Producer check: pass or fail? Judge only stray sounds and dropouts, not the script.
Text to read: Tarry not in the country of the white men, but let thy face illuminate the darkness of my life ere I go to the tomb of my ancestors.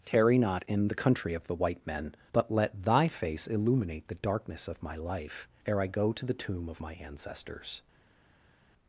pass